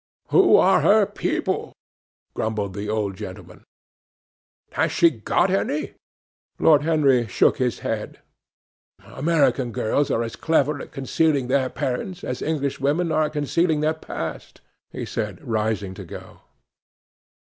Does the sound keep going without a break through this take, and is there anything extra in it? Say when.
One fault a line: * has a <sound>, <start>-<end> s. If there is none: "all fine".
all fine